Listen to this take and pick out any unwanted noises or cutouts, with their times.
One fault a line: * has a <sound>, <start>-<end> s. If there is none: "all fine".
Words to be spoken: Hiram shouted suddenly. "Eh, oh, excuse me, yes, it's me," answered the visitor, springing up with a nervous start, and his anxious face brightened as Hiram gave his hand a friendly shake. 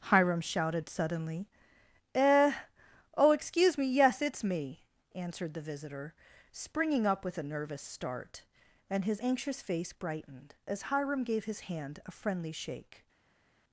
all fine